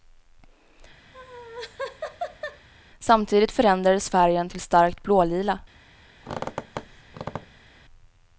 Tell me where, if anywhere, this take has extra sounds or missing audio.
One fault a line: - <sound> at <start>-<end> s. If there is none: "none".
- laugh at 1.1-2.7 s
- squeak at 6.2-7.7 s